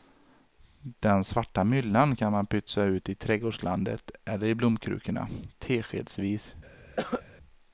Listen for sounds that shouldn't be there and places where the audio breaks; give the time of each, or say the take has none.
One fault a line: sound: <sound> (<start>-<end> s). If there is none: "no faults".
sound: cough (7.0-7.2 s)